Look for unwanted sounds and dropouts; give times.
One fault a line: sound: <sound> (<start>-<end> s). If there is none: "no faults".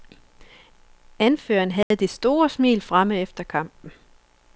sound: dropout (1.8-1.9 s)